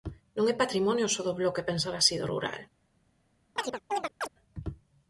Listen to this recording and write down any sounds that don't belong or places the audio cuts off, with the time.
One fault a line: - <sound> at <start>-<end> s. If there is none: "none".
- chirp at 3.6-4.3 s